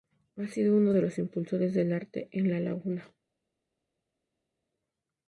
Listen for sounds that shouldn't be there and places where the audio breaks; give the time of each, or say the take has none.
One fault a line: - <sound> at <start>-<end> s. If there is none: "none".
none